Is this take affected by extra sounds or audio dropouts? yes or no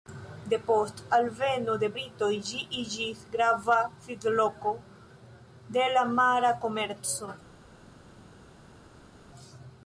no